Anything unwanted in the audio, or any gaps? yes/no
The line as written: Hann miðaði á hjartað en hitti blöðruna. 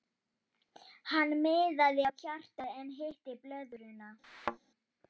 yes